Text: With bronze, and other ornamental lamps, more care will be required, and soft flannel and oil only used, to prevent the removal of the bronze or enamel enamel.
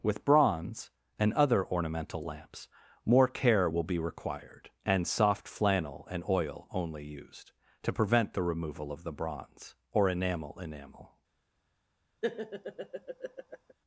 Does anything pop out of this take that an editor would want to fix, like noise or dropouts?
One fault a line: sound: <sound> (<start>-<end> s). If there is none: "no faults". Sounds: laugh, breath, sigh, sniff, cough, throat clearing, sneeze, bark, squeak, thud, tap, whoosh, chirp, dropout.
sound: laugh (12.2-13.7 s)